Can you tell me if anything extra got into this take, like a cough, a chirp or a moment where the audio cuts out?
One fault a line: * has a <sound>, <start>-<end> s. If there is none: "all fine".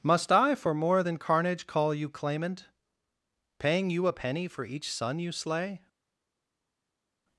all fine